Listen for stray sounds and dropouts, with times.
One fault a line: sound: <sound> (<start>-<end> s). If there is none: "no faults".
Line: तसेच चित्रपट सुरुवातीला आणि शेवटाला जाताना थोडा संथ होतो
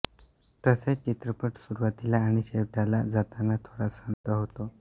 sound: dropout (4.1-4.2 s)